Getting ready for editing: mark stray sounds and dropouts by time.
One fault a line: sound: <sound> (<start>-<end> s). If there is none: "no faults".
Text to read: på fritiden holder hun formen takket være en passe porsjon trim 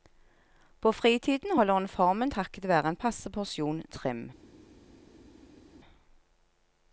no faults